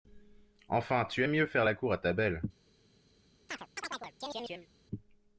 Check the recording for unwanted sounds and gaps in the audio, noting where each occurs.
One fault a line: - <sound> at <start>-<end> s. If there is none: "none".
- chirp at 3.5-4.7 s